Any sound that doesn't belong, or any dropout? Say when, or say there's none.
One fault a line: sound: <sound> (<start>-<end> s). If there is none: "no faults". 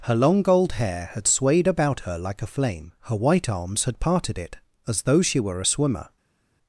no faults